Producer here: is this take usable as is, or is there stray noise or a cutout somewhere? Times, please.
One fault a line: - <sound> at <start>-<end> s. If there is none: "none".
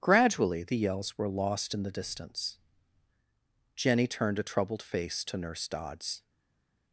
none